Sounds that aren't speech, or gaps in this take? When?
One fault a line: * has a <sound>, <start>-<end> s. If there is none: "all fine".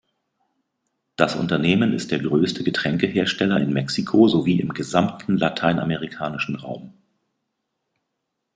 all fine